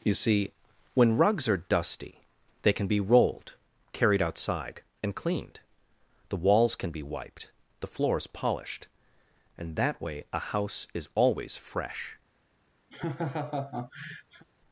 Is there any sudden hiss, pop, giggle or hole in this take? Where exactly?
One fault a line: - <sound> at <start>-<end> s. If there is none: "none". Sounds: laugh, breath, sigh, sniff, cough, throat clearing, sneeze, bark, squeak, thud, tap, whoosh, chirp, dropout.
- laugh at 12.9-14.4 s